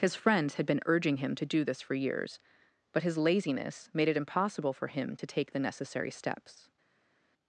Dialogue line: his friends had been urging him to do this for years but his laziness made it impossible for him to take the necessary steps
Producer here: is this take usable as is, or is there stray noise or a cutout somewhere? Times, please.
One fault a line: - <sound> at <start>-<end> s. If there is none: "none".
none